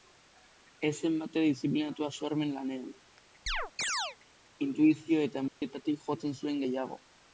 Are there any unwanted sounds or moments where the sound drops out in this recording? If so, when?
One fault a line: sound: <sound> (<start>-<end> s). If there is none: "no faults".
sound: chirp (3.5-4.2 s)
sound: dropout (5.5-5.6 s)